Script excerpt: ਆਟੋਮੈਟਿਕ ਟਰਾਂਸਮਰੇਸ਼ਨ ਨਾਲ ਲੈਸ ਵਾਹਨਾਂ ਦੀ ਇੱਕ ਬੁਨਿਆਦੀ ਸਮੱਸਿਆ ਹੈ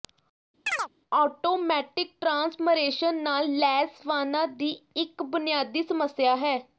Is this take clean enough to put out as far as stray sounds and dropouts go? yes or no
no